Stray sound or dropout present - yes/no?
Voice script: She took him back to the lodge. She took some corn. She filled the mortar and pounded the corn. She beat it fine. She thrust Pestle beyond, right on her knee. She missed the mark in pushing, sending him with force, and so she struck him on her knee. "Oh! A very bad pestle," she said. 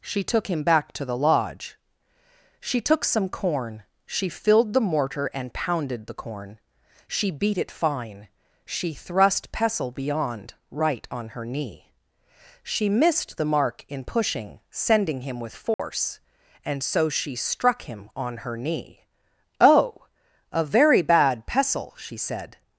yes